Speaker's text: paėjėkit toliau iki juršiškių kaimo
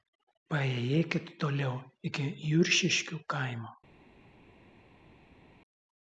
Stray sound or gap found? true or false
false